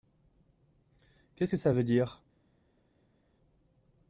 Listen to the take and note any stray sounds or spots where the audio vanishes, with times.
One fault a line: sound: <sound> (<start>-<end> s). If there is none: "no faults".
no faults